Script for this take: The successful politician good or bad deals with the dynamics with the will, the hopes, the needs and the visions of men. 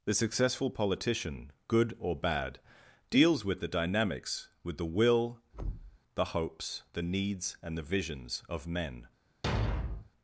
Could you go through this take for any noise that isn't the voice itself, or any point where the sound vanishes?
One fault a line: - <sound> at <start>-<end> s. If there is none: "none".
- thud at 5.5-6.0 s
- thud at 9.4-10.1 s